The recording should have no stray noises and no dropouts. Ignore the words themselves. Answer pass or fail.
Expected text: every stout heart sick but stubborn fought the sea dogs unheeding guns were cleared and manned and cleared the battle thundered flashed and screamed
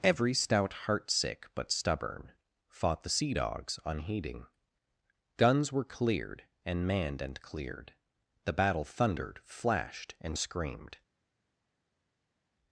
pass